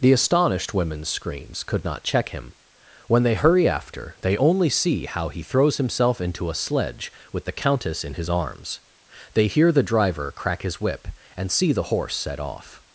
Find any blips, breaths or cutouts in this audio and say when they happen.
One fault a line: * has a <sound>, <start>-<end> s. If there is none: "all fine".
all fine